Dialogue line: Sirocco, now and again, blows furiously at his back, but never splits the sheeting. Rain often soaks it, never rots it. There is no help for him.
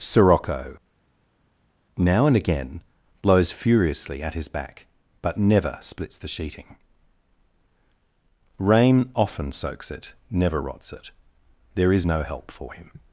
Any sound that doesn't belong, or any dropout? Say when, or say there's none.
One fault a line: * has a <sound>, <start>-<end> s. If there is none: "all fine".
all fine